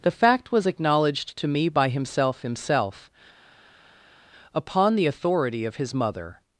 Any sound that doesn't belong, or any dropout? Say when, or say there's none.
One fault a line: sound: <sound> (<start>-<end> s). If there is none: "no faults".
no faults